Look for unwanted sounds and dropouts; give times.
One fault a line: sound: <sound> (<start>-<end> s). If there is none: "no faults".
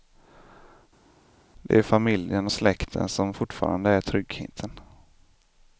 no faults